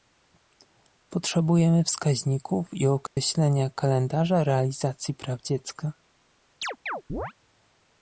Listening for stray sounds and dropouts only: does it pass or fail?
fail